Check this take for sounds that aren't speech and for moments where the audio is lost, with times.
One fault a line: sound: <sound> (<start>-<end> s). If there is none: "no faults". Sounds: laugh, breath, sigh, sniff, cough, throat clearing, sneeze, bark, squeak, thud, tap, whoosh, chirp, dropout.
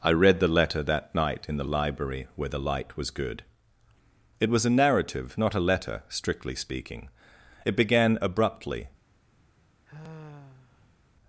sound: sigh (9.9-11.0 s)